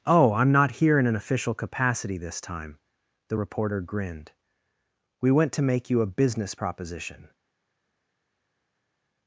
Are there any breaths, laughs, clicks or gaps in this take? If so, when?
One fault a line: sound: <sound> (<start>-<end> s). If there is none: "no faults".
no faults